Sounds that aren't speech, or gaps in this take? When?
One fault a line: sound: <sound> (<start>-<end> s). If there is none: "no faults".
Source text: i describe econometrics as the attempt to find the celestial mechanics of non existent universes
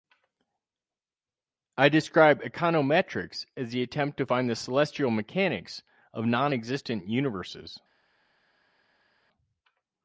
no faults